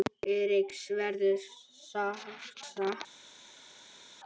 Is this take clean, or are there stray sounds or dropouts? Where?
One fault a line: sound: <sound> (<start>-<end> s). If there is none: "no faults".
no faults